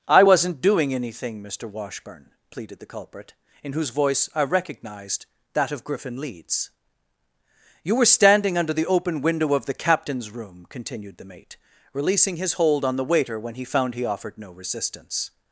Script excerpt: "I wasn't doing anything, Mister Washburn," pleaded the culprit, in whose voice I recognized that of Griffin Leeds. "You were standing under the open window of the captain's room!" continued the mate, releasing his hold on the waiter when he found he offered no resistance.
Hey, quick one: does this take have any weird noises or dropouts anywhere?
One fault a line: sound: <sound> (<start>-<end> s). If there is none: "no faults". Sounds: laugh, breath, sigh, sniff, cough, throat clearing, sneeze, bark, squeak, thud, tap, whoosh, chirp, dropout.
no faults